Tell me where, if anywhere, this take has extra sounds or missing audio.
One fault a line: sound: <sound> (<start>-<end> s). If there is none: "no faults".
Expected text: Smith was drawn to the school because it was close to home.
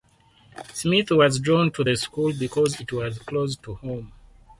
no faults